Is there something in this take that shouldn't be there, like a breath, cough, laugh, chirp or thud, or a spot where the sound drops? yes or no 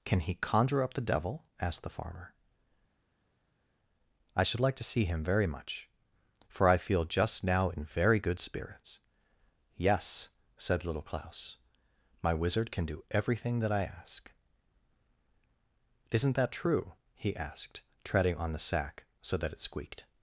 no